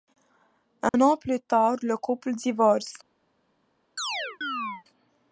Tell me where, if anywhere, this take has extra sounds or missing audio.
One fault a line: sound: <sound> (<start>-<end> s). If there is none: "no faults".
sound: dropout (0.9-0.9 s)
sound: chirp (4.0-4.8 s)